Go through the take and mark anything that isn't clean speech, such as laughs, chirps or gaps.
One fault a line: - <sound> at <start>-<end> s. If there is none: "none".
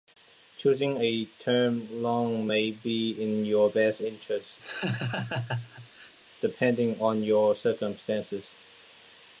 - laugh at 4.6-6.1 s